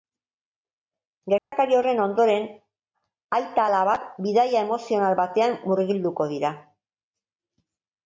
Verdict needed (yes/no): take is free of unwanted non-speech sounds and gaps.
no